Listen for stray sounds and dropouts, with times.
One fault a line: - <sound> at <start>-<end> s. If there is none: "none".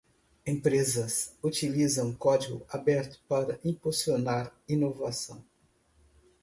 none